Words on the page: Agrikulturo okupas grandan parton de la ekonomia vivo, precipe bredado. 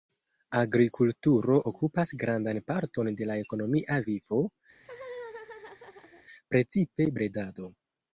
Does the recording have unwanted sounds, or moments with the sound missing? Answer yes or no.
yes